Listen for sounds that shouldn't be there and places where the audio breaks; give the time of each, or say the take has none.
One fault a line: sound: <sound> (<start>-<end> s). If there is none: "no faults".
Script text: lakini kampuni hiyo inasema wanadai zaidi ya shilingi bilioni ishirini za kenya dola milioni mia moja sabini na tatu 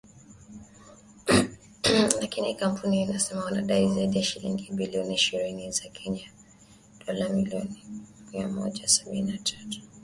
no faults